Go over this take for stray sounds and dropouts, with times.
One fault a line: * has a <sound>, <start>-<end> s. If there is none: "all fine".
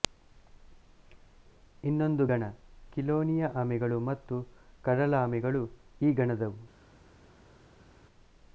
all fine